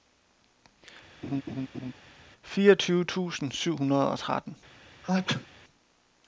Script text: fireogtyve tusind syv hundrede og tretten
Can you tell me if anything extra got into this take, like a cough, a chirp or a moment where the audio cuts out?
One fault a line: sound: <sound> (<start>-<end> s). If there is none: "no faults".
sound: laugh (1.2-1.9 s)
sound: sneeze (5.0-5.5 s)